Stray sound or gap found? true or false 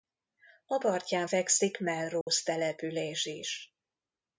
true